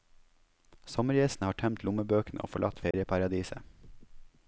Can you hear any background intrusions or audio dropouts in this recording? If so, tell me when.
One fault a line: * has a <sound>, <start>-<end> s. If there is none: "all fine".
* has a dropout, 2.9-2.9 s